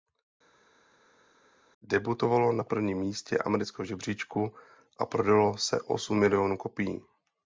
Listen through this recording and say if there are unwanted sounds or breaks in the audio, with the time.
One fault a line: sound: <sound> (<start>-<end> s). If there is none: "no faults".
no faults